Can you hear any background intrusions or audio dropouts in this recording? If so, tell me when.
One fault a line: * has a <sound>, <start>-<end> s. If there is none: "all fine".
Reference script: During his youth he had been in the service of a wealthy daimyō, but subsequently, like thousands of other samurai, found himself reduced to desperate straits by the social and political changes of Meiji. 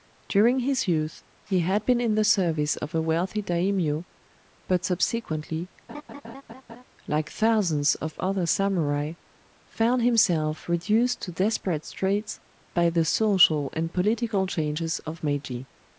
* has a laugh, 5.9-6.8 s